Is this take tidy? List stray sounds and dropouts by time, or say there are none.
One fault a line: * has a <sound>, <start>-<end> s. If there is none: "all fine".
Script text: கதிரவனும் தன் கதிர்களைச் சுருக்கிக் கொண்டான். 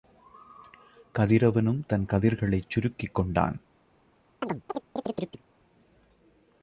* has a chirp, 4.4-5.4 s